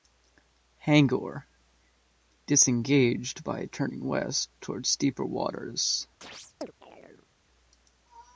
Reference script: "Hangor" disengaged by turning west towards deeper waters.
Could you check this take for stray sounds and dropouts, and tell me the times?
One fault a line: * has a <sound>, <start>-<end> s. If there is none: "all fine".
* has a chirp, 6.2-7.3 s